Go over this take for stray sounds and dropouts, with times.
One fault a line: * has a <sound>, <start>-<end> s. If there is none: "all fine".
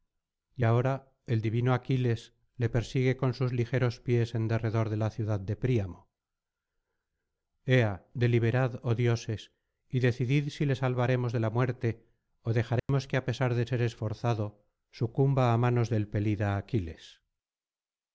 * has a dropout, 12.8-12.9 s